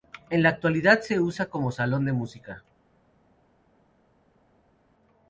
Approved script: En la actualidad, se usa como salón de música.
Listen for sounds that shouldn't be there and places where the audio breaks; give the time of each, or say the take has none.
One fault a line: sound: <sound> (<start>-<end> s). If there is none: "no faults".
no faults